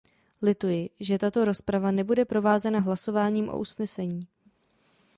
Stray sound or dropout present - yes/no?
no